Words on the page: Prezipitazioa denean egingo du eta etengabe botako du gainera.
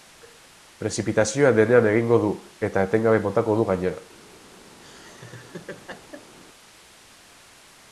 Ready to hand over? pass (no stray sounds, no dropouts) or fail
fail